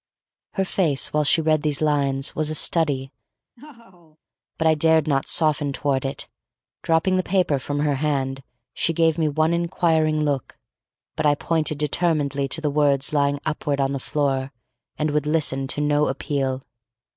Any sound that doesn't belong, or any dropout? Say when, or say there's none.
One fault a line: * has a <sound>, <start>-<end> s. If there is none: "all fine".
* has a laugh, 3.6-4.2 s